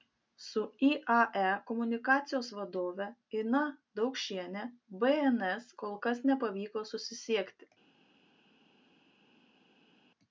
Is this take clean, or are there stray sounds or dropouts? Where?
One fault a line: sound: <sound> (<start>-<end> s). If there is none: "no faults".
no faults